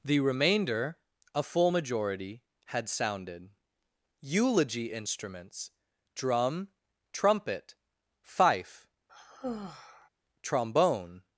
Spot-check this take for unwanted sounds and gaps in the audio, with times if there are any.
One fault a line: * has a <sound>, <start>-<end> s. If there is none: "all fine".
* has a sigh, 9.1-10.1 s